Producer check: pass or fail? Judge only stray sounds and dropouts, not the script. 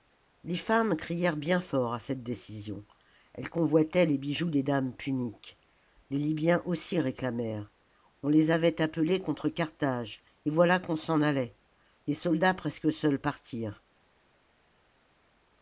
pass